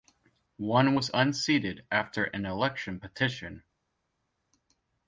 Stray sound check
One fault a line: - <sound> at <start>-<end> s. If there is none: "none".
none